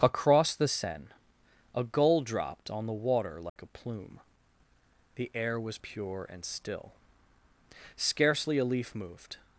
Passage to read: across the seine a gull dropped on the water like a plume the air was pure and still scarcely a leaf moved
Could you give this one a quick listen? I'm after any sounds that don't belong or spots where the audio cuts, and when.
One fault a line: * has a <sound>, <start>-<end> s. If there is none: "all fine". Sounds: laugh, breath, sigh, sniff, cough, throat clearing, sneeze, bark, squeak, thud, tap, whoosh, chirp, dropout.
* has a dropout, 3.5-3.6 s